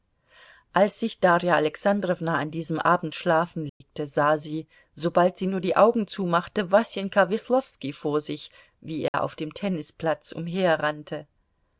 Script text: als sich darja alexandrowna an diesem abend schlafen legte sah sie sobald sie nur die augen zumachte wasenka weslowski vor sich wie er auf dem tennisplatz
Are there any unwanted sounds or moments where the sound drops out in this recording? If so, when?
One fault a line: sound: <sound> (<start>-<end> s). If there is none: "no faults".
sound: dropout (3.7-3.8 s)
sound: dropout (9.1-9.1 s)